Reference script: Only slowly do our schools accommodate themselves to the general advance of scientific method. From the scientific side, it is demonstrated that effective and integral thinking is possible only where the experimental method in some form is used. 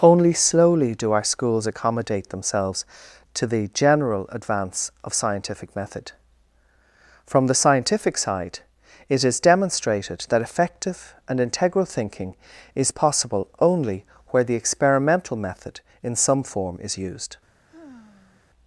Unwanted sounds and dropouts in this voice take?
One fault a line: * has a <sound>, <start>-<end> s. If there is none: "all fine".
* has a sigh, 17.7-18.5 s